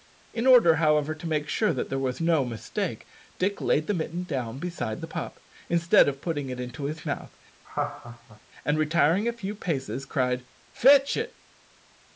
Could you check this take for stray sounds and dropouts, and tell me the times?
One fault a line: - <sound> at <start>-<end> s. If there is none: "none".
- laugh at 7.6-8.4 s